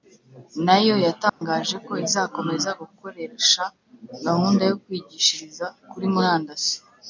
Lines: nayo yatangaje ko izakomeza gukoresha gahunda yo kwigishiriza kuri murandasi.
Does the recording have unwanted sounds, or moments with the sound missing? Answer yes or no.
yes